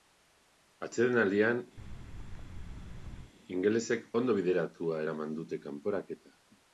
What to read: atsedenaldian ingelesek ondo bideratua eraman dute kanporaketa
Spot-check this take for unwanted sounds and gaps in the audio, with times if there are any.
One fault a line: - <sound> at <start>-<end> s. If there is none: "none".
- thud at 1.8-3.3 s